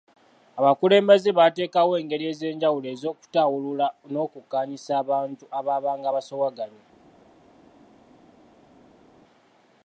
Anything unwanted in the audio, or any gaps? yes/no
no